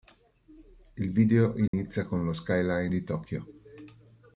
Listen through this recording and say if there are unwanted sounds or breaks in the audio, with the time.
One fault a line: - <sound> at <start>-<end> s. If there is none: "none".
- dropout at 1.7-1.7 s